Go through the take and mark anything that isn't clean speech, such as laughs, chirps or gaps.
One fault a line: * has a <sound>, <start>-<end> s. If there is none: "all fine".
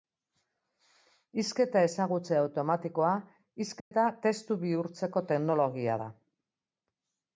* has a dropout, 3.8-3.9 s